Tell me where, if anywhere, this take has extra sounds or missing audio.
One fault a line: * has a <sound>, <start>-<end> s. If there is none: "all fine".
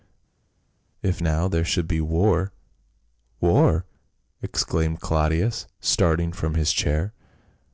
all fine